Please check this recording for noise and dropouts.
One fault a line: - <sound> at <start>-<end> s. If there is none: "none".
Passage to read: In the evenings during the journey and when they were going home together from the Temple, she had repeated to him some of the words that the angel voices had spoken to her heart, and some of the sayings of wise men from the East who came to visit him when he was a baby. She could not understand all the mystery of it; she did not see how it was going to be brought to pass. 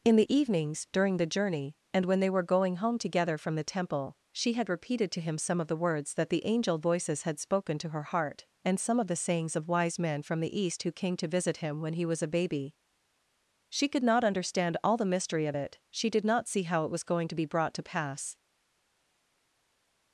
none